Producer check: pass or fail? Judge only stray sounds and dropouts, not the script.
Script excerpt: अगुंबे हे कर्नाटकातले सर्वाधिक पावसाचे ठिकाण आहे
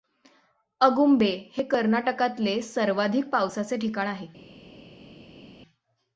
pass